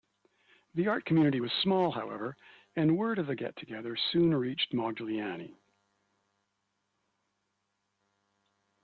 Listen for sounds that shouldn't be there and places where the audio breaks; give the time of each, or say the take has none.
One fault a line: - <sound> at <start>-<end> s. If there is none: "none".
none